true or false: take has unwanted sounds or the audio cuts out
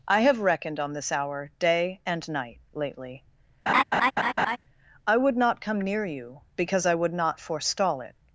true